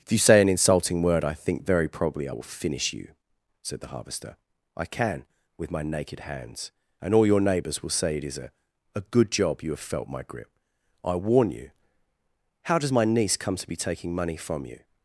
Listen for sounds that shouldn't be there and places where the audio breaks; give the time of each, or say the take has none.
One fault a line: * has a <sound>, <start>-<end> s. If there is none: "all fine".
all fine